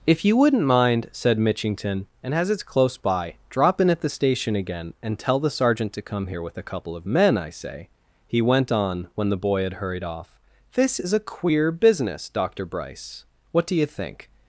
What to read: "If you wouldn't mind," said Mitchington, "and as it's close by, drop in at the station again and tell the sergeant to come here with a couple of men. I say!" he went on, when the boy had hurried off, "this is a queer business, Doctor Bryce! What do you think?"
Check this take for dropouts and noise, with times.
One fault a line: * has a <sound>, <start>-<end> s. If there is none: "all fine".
all fine